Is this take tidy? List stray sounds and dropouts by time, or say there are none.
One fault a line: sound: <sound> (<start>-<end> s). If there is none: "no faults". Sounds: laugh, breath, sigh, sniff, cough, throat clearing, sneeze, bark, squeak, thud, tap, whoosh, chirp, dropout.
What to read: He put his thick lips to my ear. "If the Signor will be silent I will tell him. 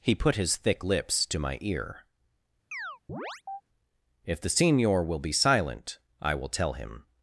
sound: chirp (2.7-3.6 s)